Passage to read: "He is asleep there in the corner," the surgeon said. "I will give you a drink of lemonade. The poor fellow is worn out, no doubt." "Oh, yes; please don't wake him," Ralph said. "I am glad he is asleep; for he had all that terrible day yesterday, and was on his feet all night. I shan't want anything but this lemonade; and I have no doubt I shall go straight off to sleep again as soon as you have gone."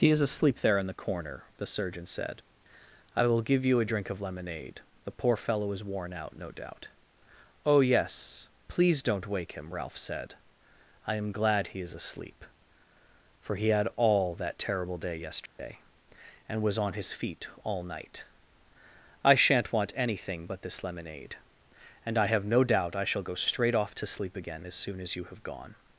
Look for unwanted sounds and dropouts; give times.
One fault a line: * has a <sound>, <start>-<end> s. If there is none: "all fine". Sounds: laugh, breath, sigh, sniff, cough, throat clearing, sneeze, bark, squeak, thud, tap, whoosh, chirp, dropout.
* has a dropout, 15.5-15.6 s